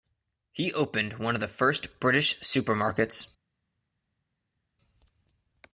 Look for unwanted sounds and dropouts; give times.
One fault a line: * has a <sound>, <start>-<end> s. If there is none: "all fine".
all fine